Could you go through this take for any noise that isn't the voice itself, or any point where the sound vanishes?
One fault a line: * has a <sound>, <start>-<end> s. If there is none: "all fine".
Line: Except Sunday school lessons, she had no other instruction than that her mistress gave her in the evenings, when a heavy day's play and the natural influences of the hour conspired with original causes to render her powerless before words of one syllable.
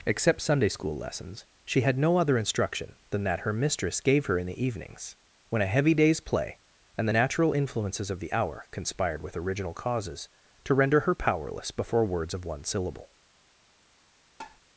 * has a tap, 14.4-14.6 s